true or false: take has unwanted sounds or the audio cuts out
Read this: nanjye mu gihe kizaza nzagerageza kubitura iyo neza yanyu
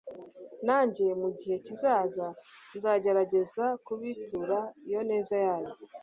false